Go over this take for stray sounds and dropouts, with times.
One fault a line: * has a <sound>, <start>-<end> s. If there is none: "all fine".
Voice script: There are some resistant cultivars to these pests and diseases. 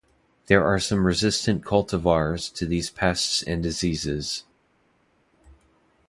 all fine